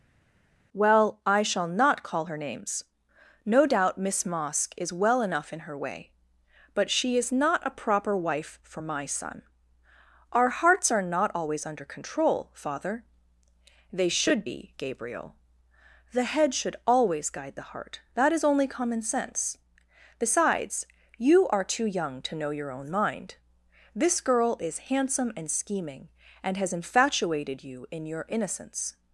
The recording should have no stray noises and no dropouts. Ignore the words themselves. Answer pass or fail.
pass